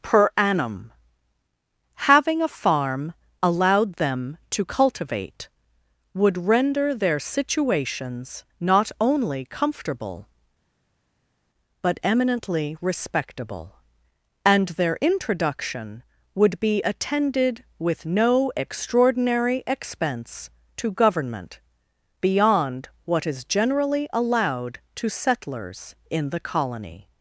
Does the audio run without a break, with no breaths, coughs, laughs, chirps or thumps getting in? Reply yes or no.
yes